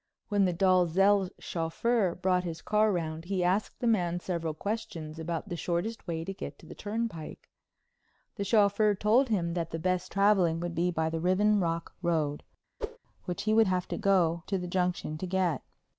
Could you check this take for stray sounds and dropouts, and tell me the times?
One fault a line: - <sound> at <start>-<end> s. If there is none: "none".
- whoosh at 12.8-13.0 s